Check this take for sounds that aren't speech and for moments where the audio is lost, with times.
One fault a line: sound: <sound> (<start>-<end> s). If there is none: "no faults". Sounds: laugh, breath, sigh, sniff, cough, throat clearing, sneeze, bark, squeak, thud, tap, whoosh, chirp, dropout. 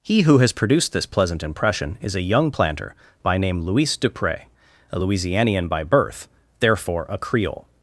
no faults